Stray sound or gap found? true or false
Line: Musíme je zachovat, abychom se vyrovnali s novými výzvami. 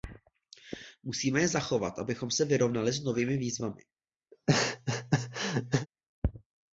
true